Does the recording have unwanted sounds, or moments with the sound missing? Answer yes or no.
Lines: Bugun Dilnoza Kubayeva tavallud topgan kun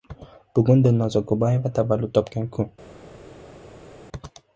no